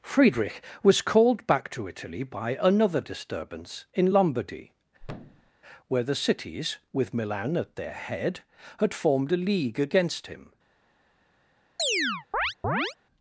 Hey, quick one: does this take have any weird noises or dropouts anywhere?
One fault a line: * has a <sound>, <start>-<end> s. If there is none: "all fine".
* has a thud, 5.0-5.5 s
* has a chirp, 11.8-13.0 s